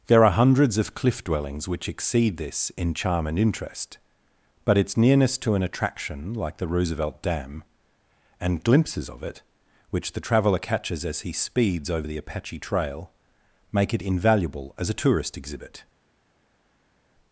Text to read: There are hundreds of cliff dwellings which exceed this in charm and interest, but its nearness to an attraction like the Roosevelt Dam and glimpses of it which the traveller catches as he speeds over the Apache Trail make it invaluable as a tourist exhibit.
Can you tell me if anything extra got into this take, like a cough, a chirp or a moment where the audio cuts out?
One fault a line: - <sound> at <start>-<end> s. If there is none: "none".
none